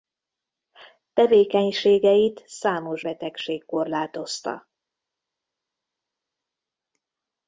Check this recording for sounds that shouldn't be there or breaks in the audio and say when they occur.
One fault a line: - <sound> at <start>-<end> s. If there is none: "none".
none